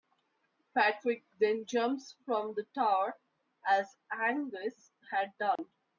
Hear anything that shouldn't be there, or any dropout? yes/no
yes